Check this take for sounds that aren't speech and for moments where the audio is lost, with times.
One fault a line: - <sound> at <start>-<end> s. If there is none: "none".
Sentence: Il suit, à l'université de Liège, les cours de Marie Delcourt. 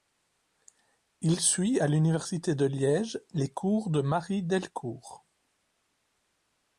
none